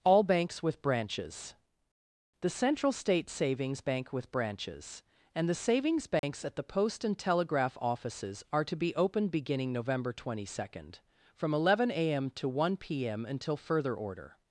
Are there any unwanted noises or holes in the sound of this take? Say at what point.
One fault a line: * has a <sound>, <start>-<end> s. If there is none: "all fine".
* has a dropout, 6.2-6.2 s